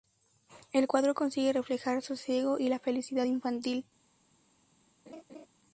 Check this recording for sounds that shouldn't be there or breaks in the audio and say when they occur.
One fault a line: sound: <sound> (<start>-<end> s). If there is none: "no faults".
sound: laugh (5.1-5.5 s)